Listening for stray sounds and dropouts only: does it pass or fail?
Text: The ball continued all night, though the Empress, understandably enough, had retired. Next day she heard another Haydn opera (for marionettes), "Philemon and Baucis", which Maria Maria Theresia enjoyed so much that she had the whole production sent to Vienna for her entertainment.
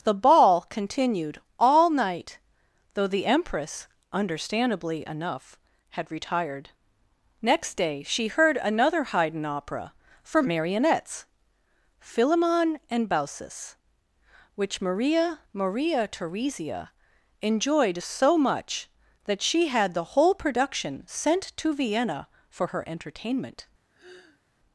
fail